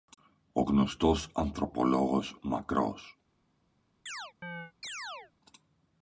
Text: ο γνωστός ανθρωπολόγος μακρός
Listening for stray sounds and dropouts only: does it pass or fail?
fail